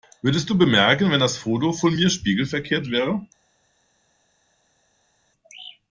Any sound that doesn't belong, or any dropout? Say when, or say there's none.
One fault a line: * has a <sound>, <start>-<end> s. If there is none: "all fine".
all fine